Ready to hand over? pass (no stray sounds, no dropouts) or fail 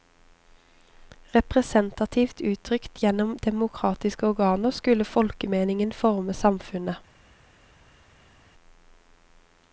pass